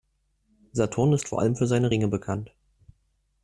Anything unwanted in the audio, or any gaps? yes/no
no